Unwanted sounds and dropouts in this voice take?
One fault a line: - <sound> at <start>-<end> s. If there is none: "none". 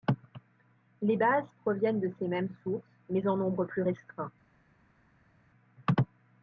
none